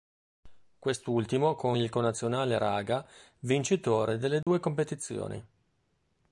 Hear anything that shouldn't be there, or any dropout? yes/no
yes